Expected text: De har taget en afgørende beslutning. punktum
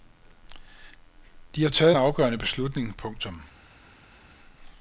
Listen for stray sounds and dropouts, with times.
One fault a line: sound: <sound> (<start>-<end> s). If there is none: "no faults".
no faults